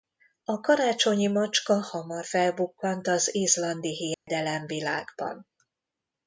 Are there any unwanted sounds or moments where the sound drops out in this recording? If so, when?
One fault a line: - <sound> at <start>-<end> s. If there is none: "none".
- dropout at 4.1-4.3 s